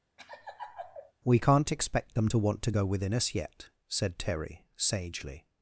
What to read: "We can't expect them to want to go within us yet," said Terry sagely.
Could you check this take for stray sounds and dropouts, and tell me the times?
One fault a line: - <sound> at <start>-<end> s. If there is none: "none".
- laugh at 0.2-1.1 s